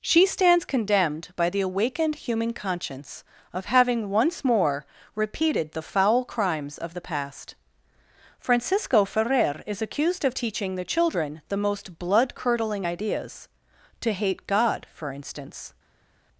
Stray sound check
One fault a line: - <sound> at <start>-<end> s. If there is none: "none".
none